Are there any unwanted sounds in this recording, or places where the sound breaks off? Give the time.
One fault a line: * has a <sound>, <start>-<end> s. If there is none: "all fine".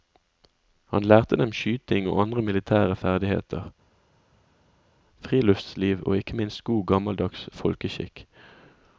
all fine